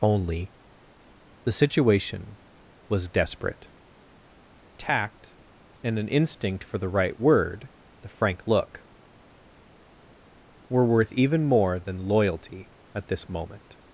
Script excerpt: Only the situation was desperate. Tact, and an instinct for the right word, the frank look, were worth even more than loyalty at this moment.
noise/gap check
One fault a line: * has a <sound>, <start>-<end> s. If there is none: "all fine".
all fine